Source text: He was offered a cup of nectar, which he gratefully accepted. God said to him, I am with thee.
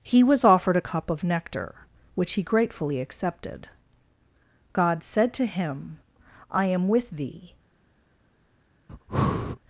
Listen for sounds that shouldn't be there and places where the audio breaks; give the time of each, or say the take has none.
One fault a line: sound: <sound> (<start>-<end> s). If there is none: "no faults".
sound: breath (8.9-9.6 s)